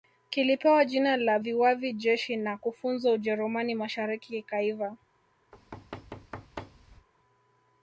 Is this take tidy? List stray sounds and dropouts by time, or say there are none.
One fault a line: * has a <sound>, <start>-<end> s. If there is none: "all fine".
* has a thud, 5.5-7.1 s